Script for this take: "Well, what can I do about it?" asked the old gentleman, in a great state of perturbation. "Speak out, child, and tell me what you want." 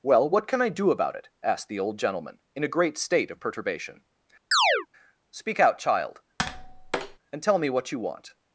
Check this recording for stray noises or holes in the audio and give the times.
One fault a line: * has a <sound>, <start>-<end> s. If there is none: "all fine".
* has a chirp, 4.5-4.9 s
* has a tap, 6.4-7.2 s